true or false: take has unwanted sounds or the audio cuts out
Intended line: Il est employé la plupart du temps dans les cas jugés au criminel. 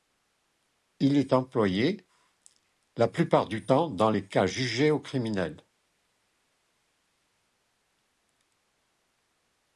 false